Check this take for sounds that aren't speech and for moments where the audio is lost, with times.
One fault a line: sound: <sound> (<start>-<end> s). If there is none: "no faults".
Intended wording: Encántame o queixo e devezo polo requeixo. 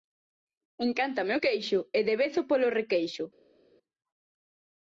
no faults